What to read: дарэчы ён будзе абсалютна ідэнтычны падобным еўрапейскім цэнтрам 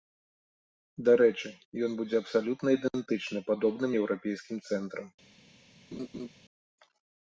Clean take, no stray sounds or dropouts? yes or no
no